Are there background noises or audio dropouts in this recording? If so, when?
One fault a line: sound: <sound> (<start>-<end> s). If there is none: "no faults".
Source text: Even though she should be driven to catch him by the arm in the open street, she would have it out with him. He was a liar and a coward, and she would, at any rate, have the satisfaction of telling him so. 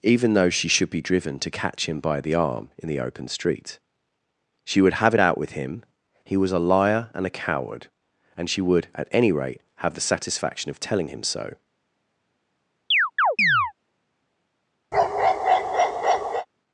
sound: chirp (12.9-13.7 s)
sound: bark (14.9-16.5 s)